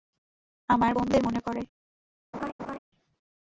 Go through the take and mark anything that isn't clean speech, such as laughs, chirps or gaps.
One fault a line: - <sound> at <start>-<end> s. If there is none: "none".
- laugh at 2.3-2.8 s